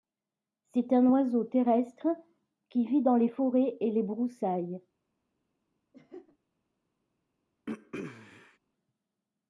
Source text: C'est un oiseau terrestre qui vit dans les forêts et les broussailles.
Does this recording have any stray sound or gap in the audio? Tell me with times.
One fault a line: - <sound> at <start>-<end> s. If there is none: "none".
- laugh at 5.9-6.4 s
- throat clearing at 7.7-8.6 s